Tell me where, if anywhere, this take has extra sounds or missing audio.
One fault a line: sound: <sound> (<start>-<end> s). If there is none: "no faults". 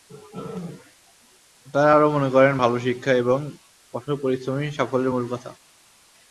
no faults